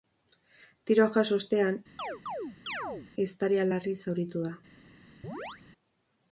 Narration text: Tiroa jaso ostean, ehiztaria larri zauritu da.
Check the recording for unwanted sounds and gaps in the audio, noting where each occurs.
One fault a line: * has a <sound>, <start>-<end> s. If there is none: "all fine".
* has a chirp, 2.0-3.1 s
* has a chirp, 5.2-5.6 s